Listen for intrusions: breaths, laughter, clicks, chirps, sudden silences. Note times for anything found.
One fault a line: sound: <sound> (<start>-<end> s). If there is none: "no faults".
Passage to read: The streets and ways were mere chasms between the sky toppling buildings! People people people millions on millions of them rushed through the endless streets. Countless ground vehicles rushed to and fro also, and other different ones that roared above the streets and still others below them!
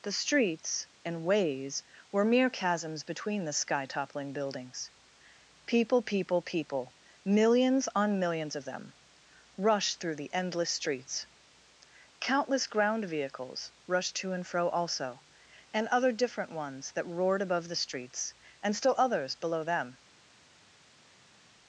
no faults